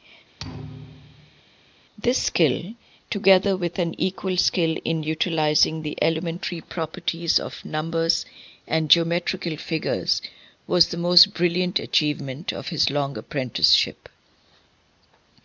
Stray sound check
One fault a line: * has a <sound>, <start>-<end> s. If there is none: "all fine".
* has a thud, 0.4-1.4 s